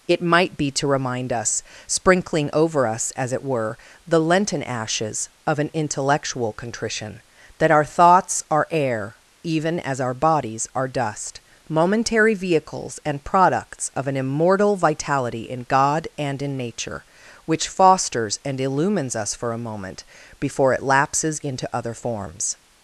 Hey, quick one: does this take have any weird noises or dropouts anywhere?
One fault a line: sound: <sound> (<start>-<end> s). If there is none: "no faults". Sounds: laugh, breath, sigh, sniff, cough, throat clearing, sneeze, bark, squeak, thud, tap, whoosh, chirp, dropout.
no faults